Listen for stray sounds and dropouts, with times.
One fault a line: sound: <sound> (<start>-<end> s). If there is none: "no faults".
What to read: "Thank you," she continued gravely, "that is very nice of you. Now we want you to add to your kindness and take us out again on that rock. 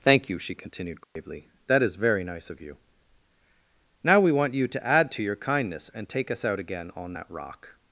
sound: dropout (1.0-1.2 s)